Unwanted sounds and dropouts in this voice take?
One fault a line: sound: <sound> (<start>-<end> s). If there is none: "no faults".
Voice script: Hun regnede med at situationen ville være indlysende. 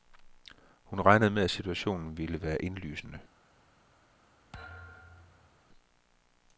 sound: thud (4.5-5.6 s)